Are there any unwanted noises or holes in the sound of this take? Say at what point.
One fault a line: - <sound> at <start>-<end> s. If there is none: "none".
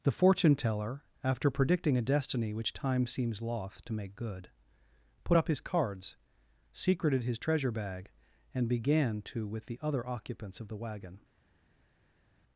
none